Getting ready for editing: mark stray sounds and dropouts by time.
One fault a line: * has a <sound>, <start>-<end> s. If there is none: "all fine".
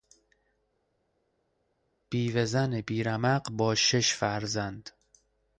all fine